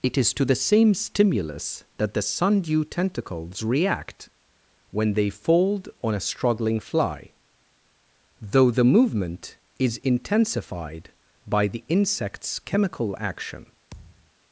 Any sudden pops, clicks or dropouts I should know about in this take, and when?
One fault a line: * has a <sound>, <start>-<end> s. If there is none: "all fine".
* has a thud, 13.9-14.3 s